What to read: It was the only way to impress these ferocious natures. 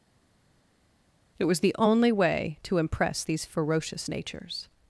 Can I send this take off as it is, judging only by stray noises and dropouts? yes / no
yes